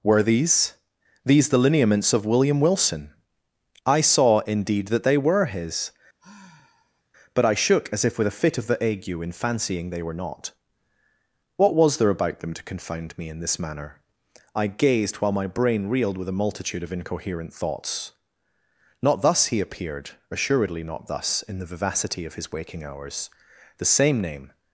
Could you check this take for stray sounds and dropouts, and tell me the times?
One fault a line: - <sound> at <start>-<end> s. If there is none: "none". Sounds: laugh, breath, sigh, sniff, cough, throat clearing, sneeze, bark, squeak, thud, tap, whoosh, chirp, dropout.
- sigh at 6.2-7.0 s